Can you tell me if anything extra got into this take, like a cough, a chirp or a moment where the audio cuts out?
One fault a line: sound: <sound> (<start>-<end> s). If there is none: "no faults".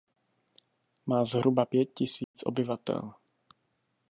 sound: dropout (2.2-2.3 s)